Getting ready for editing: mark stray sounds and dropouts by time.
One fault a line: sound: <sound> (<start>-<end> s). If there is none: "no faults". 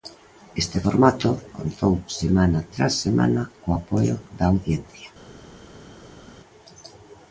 no faults